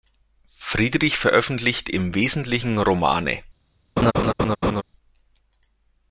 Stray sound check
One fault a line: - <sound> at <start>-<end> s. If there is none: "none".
- laugh at 4.0-4.8 s